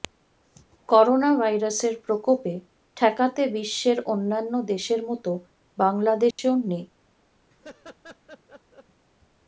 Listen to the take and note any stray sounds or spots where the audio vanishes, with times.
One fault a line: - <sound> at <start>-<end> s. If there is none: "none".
- dropout at 6.3-6.4 s
- laugh at 7.5-8.8 s